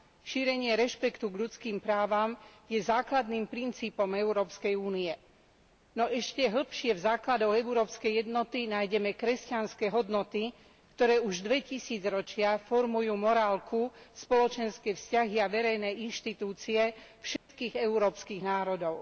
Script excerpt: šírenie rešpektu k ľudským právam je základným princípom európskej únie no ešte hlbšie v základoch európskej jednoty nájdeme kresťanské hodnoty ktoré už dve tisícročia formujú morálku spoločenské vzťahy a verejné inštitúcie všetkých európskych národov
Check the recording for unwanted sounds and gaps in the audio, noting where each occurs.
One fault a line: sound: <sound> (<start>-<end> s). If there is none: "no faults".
sound: dropout (17.4-17.5 s)